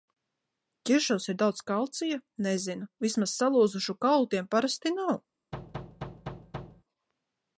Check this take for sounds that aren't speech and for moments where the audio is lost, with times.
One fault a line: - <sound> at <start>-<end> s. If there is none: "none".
- thud at 5.5-6.8 s